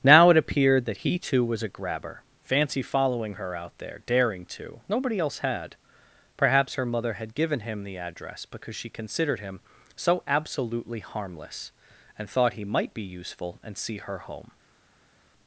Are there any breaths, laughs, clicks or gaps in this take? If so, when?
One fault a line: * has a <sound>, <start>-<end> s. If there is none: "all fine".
all fine